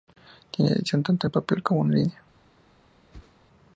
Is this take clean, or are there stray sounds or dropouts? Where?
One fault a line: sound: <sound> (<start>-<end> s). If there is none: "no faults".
sound: whoosh (3.1-3.4 s)